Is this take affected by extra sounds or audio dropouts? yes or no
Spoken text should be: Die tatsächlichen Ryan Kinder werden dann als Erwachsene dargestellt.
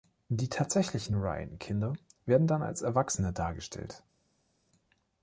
no